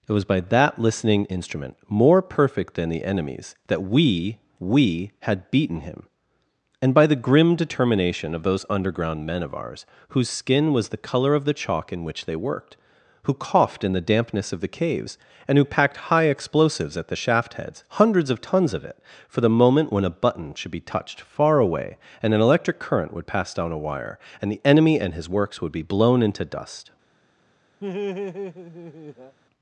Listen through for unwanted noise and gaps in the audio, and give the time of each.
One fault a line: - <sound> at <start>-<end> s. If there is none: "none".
- laugh at 27.8-29.4 s